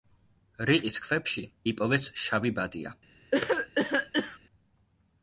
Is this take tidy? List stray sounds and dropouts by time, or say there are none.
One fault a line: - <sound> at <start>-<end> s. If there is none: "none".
- cough at 3.3-4.4 s